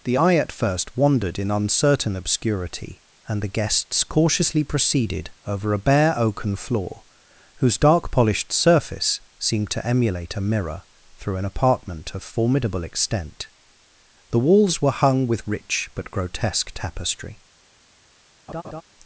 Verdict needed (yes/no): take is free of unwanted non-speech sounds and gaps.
no